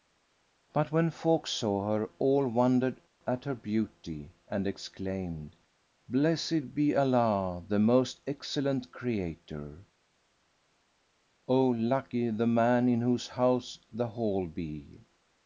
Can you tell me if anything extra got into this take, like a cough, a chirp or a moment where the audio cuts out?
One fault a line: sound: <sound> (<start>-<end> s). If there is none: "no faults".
no faults